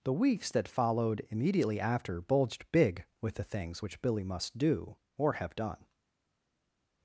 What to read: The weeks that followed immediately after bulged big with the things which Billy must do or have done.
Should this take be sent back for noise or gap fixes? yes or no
no